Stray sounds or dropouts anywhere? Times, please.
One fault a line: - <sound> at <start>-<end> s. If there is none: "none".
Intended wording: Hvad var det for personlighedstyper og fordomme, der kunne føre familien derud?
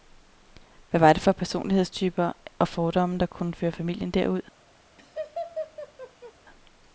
- laugh at 5.0-6.3 s